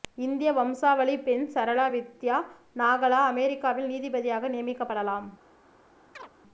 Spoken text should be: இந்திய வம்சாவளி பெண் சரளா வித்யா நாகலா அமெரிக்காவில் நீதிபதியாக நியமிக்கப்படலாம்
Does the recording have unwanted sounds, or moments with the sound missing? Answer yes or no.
yes